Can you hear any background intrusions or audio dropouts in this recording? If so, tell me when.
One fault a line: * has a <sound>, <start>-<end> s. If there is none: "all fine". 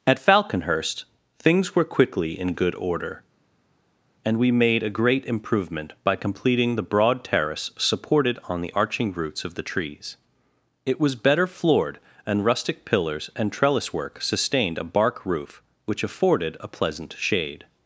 all fine